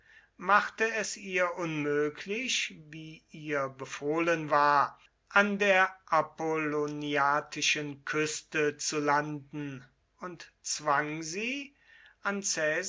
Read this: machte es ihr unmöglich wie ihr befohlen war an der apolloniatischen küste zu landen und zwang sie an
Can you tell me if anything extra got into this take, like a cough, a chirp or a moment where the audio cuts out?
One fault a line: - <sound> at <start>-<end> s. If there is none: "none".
none